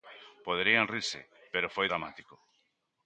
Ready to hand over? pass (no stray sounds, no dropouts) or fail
pass